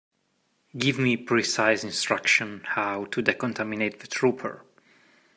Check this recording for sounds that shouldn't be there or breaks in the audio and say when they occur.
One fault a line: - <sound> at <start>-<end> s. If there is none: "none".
none